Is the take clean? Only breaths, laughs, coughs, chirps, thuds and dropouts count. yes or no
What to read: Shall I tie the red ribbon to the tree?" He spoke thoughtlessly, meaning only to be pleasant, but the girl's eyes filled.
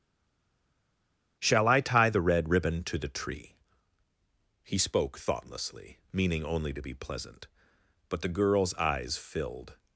yes